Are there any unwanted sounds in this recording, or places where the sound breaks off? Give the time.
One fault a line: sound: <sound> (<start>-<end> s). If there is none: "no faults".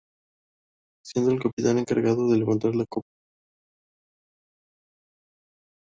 no faults